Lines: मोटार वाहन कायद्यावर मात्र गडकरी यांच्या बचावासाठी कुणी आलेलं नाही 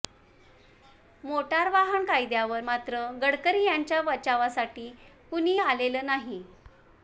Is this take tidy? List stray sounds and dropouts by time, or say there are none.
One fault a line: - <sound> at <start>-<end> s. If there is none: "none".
none